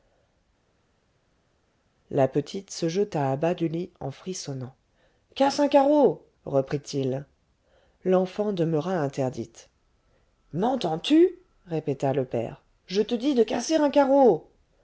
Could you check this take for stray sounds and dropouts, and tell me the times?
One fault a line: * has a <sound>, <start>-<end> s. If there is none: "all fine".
all fine